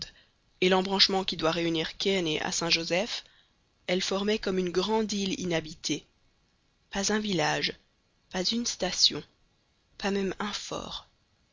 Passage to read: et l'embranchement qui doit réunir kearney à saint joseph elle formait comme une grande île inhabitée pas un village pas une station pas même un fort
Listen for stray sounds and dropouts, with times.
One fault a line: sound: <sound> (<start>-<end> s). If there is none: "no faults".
no faults